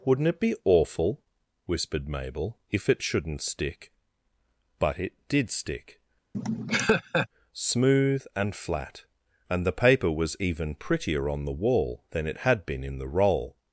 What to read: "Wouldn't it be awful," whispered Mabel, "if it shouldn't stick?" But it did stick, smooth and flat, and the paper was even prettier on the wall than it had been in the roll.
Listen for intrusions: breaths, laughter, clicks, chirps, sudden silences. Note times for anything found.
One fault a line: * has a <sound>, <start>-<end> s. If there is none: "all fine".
* has a laugh, 6.3-7.3 s